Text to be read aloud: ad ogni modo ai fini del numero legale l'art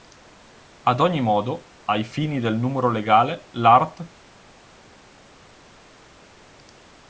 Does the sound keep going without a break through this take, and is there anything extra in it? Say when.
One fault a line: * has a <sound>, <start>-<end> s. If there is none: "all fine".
all fine